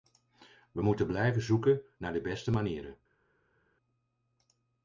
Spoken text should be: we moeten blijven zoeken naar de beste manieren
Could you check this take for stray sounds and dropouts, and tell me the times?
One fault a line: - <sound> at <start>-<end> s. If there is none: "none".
none